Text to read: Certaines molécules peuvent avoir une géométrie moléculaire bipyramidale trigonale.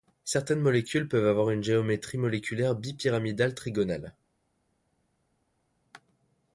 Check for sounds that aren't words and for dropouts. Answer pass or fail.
pass